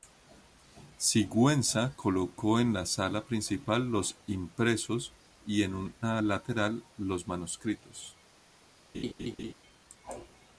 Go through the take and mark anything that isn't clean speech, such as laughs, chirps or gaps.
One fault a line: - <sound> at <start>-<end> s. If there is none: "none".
- laugh at 8.9-9.5 s